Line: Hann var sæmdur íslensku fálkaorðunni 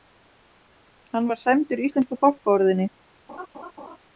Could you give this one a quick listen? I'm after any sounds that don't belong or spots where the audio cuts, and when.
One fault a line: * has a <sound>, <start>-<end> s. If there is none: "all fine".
* has a laugh, 3.3-4.0 s